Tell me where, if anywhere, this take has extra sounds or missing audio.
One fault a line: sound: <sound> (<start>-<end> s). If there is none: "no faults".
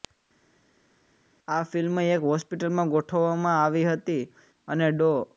no faults